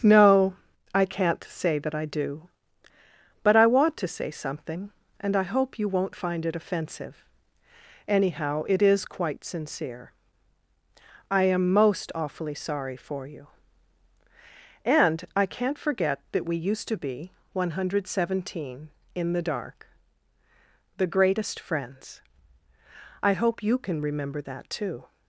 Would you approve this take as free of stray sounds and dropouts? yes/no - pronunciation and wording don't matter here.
yes